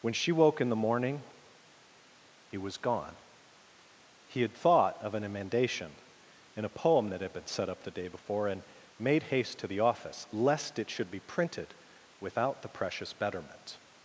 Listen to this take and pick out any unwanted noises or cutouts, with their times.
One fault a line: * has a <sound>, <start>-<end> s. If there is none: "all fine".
all fine